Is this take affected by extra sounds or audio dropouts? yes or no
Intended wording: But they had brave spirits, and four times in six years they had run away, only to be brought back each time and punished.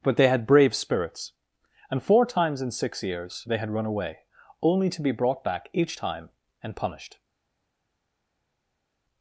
no